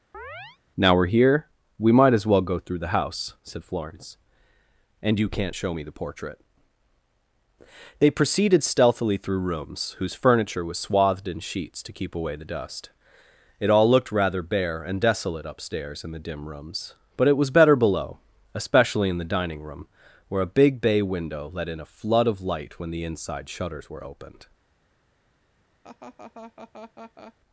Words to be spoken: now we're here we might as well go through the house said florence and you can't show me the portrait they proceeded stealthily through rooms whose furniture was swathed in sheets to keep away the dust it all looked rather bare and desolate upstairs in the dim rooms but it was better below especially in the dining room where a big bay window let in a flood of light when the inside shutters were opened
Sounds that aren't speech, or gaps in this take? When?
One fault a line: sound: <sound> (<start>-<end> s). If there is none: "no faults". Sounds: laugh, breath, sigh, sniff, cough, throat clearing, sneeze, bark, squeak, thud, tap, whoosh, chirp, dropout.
sound: chirp (0.1-0.6 s)
sound: laugh (25.8-27.3 s)